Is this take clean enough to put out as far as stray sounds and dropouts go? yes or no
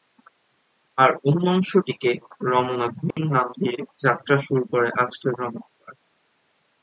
no